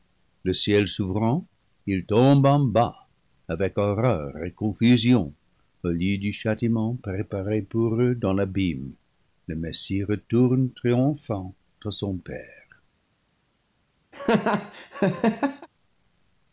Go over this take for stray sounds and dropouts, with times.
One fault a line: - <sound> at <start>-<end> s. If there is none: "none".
- laugh at 14.1-15.7 s